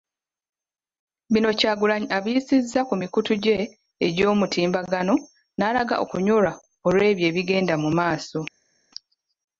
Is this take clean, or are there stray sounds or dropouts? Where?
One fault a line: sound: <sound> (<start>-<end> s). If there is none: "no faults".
no faults